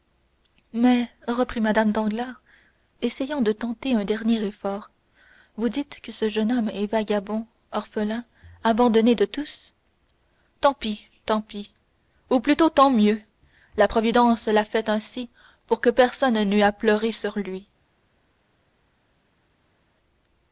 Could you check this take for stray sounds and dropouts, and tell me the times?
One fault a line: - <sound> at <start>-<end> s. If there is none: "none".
none